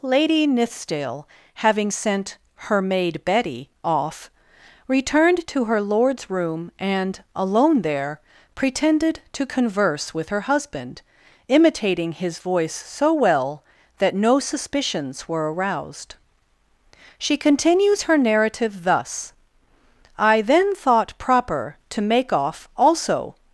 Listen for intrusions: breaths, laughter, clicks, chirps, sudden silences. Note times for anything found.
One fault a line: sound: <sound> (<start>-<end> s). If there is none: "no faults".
no faults